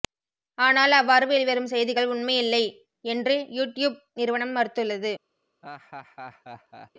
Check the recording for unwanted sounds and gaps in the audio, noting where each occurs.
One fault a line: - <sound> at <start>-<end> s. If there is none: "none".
- laugh at 5.6-6.9 s